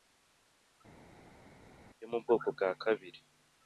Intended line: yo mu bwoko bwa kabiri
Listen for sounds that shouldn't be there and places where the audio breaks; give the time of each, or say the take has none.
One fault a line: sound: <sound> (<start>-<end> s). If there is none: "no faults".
no faults